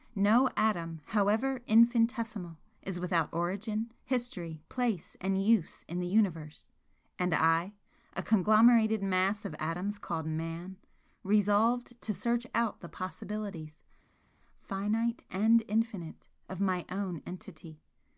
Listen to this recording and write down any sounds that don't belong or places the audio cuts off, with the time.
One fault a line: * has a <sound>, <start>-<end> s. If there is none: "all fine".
all fine